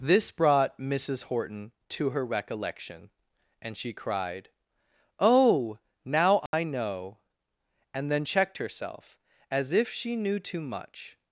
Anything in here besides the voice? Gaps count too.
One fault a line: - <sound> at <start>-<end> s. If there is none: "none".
- dropout at 6.5-6.5 s